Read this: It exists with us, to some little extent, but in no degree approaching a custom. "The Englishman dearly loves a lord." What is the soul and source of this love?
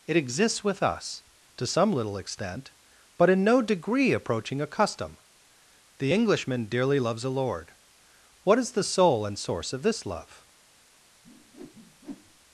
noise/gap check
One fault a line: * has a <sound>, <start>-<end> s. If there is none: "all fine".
* has a whoosh, 11.2-12.4 s